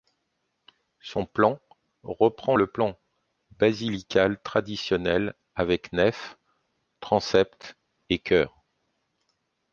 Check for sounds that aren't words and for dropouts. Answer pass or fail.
pass